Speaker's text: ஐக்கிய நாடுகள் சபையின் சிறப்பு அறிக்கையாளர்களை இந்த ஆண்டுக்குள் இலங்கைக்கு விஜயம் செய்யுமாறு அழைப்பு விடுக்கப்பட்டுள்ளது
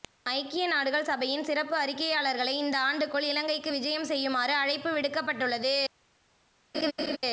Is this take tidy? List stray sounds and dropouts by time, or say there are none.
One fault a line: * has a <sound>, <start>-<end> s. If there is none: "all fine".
* has a laugh, 6.7-7.2 s